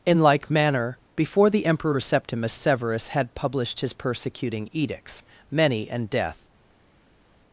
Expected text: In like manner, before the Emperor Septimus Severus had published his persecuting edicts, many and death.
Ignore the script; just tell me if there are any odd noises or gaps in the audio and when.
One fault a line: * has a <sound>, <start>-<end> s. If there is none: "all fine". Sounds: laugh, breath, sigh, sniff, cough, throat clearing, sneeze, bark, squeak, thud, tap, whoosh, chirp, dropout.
all fine